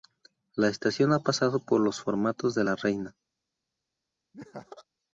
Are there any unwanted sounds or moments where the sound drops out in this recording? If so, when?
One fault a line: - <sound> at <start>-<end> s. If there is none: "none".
- laugh at 4.3-4.9 s